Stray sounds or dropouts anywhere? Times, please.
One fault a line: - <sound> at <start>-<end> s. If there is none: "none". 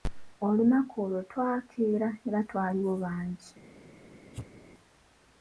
- sneeze at 4.3-4.6 s